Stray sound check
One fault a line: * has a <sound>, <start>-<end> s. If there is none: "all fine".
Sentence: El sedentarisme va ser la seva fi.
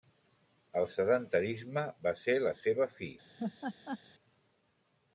* has a laugh, 3.4-4.0 s